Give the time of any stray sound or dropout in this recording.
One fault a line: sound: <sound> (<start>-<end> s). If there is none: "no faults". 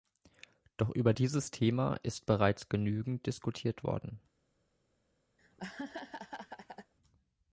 sound: laugh (5.4-6.9 s)